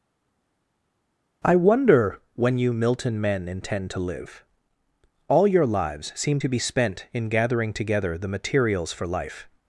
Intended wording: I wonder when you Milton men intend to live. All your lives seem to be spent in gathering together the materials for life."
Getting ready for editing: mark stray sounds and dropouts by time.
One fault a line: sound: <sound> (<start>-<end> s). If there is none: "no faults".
no faults